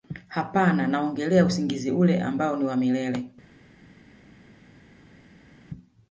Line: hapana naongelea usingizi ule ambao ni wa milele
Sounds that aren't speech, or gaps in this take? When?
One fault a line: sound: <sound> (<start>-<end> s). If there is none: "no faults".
no faults